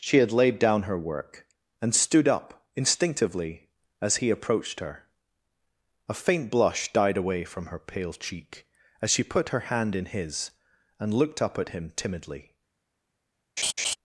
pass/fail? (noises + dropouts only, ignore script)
fail